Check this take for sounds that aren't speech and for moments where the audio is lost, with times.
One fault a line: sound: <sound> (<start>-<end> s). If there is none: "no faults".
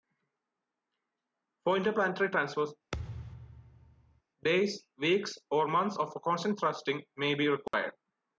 sound: thud (2.9-4.2 s)
sound: dropout (7.7-7.7 s)